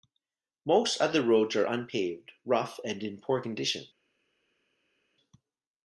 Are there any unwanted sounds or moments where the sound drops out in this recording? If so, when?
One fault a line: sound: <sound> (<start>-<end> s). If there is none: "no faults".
no faults